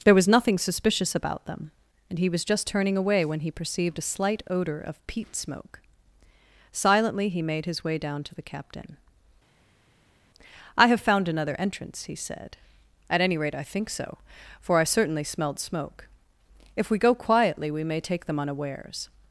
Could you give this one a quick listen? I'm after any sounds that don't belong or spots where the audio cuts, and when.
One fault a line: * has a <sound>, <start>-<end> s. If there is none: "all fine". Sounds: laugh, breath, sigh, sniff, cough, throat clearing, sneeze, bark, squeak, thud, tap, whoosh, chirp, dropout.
all fine